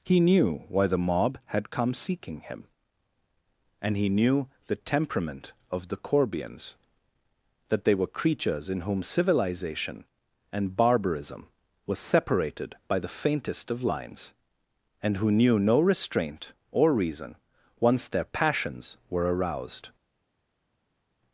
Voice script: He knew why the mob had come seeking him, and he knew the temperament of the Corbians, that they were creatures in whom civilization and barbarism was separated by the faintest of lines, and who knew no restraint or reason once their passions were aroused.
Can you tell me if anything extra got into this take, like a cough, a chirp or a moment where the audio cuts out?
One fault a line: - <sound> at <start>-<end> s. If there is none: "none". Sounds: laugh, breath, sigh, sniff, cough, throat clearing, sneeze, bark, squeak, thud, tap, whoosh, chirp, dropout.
none